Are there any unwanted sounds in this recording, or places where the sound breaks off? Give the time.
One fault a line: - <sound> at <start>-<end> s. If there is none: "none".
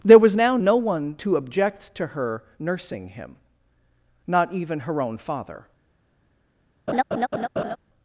- laugh at 6.9-7.8 s